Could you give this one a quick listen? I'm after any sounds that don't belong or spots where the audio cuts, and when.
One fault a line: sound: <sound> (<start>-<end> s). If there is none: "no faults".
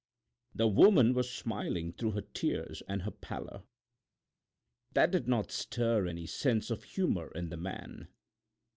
no faults